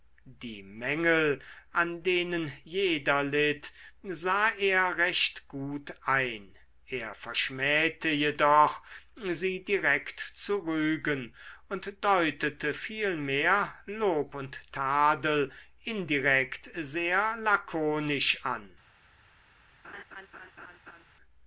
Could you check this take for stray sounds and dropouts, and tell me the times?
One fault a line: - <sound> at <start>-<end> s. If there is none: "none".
- laugh at 19.8-21.0 s